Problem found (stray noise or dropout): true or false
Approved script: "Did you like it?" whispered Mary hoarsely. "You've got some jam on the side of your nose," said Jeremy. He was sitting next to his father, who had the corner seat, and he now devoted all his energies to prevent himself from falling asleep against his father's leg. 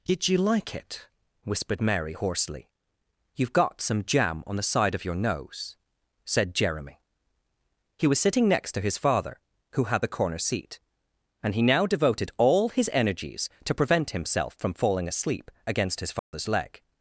true